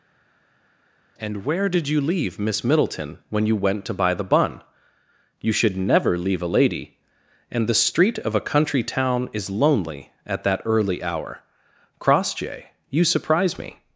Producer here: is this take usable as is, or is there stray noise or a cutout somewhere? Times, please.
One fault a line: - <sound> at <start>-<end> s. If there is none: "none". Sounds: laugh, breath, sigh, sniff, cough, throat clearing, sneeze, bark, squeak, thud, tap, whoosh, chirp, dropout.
none